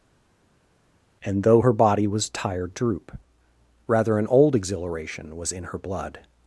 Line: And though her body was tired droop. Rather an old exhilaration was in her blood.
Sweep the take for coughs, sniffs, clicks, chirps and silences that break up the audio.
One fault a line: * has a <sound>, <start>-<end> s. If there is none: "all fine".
all fine